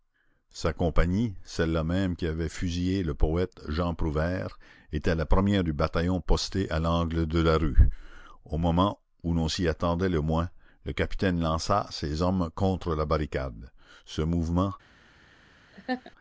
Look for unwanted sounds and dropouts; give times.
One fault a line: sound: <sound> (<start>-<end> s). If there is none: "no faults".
sound: laugh (15.7-16.1 s)